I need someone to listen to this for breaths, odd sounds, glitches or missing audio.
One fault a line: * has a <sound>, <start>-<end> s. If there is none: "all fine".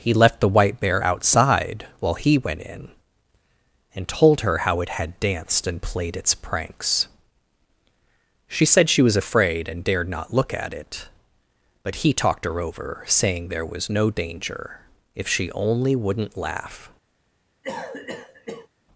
* has a cough, 17.6-18.7 s